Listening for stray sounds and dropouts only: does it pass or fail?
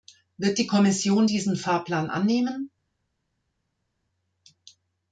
pass